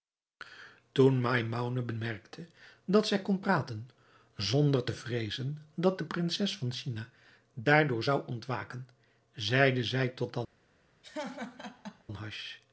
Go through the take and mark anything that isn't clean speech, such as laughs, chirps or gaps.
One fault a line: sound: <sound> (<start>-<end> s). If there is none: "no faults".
sound: laugh (11.0-12.0 s)